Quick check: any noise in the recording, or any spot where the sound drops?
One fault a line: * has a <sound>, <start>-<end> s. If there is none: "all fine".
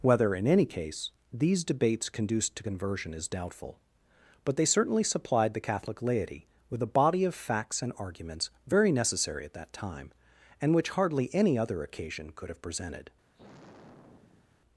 * has a sigh, 13.3-14.6 s